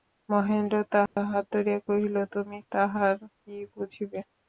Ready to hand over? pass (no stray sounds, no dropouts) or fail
fail